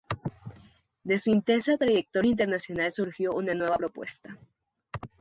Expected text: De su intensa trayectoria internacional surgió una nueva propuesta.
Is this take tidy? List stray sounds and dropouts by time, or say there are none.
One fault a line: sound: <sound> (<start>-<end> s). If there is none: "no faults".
no faults